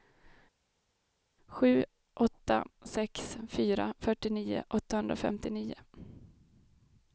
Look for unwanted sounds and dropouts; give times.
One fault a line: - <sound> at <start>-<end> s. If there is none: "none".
none